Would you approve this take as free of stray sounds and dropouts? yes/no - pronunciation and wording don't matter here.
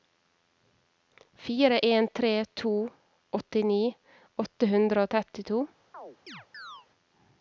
no